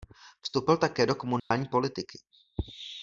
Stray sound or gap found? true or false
true